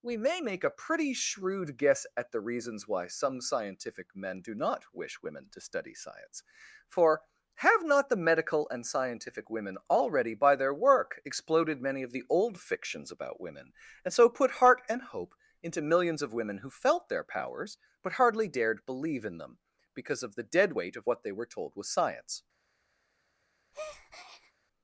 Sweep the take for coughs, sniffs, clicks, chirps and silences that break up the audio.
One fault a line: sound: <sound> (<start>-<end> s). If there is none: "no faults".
sound: breath (23.7-24.5 s)